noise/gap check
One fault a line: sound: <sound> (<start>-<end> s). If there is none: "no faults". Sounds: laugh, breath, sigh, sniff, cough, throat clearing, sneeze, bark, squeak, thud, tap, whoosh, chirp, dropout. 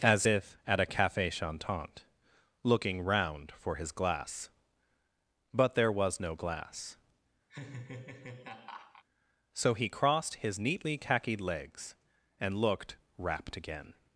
sound: laugh (7.5-9.0 s)